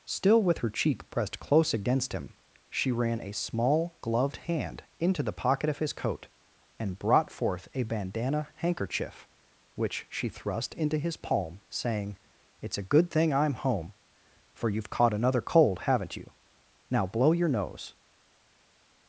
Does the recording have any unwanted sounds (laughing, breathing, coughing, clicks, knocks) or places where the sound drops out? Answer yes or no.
no